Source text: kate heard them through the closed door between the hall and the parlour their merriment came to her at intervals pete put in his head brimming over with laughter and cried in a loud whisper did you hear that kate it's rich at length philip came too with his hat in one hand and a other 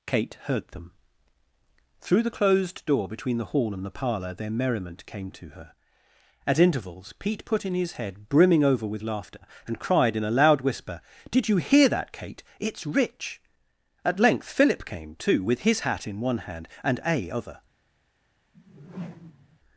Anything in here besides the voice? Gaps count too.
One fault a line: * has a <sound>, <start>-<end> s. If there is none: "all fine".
* has a whoosh, 18.5-19.6 s